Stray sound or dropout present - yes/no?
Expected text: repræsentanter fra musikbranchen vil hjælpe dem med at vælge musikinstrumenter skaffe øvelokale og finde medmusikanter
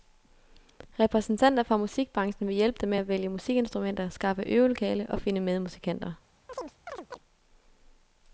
yes